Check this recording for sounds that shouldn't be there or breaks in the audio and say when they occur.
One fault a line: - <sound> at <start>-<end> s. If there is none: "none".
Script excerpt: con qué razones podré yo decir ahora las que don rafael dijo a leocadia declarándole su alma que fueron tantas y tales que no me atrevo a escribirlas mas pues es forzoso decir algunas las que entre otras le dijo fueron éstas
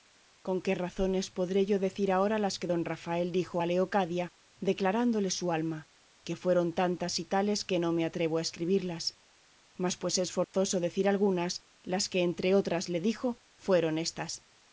- dropout at 10.4-10.5 s